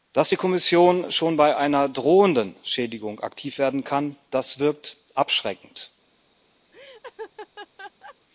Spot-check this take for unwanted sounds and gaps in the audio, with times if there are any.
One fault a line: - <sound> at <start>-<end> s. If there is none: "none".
- laugh at 6.7-8.2 s